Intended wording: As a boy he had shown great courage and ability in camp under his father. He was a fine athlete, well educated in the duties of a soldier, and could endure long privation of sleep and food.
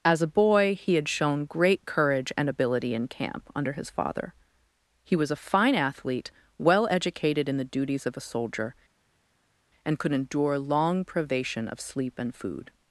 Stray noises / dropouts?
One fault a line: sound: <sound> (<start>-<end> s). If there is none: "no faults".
no faults